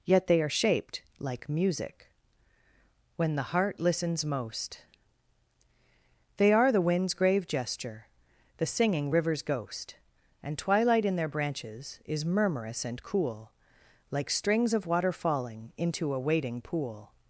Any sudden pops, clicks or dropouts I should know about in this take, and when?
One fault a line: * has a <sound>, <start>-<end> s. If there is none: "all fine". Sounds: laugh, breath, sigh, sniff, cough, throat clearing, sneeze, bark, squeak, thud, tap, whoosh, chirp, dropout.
all fine